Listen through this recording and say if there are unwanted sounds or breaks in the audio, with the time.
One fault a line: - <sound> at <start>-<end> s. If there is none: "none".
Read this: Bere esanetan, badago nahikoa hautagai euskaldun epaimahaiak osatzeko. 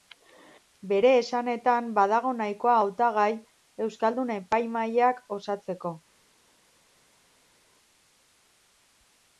none